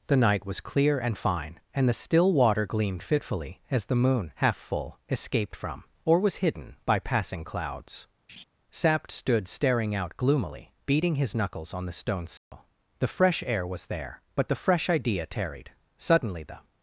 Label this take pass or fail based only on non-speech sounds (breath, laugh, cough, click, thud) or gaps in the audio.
fail